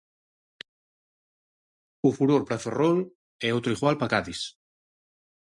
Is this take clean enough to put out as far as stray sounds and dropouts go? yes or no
yes